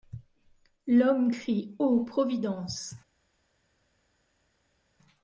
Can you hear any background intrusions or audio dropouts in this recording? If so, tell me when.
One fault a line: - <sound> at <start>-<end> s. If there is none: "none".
none